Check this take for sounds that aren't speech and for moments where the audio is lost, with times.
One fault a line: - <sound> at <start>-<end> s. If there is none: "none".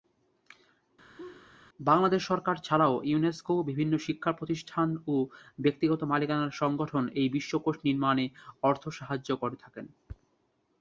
- laugh at 1.2-1.5 s